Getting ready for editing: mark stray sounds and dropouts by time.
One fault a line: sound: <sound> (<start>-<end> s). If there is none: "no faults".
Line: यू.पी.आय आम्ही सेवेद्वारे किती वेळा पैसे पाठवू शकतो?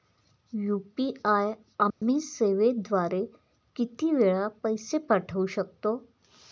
sound: dropout (1.9-2.0 s)